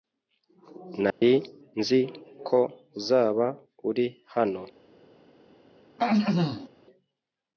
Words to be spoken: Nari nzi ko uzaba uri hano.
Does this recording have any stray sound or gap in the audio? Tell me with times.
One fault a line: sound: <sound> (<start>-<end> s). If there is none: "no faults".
sound: dropout (1.1-1.2 s)
sound: throat clearing (6.0-6.7 s)